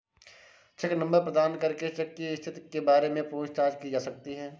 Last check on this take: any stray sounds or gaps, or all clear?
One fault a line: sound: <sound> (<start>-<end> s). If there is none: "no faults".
no faults